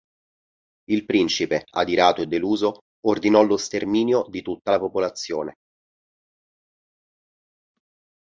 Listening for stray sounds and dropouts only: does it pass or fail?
pass